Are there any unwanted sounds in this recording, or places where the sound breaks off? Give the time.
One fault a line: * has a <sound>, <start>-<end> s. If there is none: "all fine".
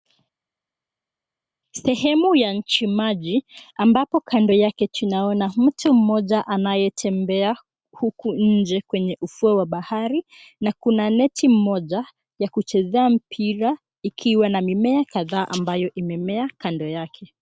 all fine